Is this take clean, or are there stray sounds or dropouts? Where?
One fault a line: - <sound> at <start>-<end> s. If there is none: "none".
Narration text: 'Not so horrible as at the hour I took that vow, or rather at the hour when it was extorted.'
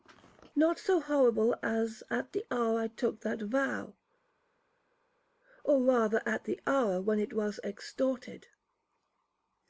none